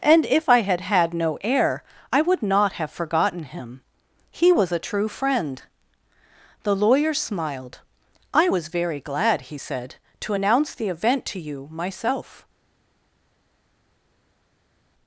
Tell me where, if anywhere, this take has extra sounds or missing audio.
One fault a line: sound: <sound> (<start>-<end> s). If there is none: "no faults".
no faults